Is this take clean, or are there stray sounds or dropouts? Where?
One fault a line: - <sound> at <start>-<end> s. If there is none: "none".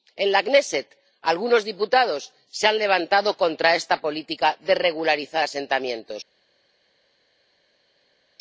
none